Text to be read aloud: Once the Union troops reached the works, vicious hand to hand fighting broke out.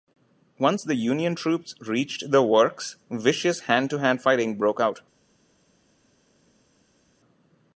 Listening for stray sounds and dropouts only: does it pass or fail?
pass